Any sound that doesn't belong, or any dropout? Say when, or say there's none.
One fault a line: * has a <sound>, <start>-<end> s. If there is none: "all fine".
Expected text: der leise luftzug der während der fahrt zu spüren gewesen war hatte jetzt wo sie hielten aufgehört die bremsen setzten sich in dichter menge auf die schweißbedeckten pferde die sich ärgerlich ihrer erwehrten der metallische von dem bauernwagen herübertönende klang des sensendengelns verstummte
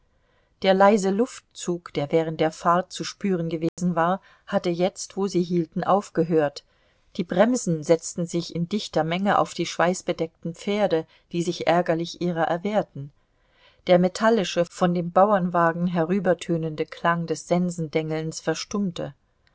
* has a dropout, 3.7-3.8 s